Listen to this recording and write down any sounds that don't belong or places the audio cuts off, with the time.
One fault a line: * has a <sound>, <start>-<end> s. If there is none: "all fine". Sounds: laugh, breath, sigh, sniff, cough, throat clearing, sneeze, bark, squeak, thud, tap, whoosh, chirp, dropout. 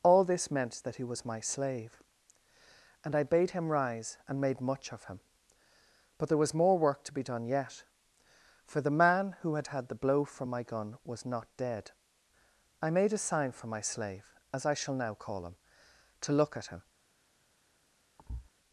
* has a thud, 18.2-18.5 s